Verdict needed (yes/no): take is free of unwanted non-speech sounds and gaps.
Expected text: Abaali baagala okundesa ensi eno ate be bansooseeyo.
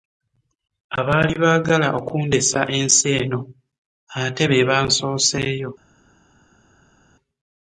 yes